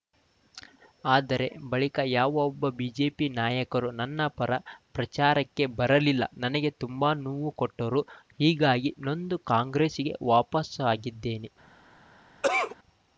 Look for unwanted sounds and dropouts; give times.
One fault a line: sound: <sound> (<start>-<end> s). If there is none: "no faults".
sound: cough (12.4-12.8 s)